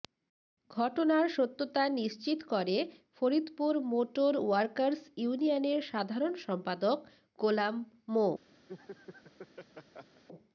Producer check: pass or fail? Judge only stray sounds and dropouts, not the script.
fail